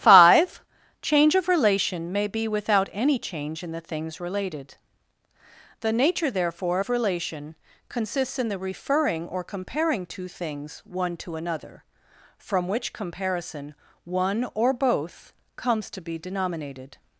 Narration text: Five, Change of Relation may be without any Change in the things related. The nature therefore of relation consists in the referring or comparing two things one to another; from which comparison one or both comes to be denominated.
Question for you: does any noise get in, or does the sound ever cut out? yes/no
no